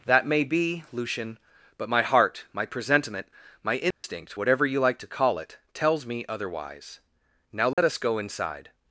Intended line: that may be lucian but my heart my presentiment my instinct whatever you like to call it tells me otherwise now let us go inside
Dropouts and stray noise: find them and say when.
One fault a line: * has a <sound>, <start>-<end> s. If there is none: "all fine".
* has a dropout, 3.9-4.0 s
* has a dropout, 7.7-7.8 s